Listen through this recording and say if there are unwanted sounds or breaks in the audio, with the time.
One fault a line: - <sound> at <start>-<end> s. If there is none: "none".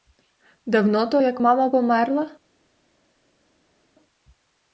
none